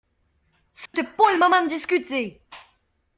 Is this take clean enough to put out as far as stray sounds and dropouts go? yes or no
no